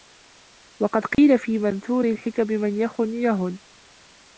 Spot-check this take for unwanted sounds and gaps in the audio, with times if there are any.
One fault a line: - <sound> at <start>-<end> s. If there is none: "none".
- dropout at 1.1-1.2 s